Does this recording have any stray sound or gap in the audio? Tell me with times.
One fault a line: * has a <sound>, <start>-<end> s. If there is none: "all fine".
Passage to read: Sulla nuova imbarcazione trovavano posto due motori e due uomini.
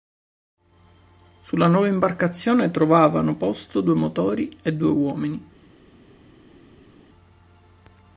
all fine